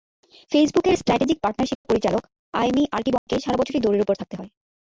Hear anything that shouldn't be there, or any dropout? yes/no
yes